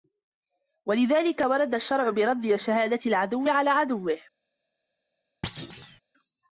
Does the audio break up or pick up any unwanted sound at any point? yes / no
yes